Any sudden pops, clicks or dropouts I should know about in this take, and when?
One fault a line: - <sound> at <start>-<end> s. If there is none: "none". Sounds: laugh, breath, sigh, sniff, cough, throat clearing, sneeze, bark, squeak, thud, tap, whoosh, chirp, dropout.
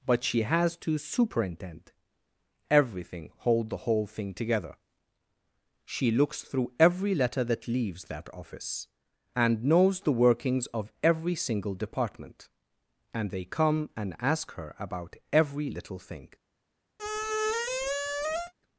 - squeak at 17.0-18.5 s